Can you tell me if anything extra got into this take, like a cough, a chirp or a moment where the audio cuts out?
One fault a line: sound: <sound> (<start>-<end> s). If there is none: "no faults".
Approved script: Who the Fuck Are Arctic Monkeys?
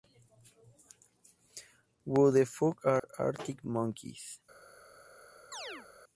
sound: dropout (3.0-3.0 s)
sound: chirp (5.5-5.9 s)